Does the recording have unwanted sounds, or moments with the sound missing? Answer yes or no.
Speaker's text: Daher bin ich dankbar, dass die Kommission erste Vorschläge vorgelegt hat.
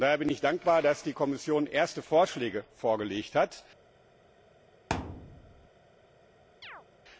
yes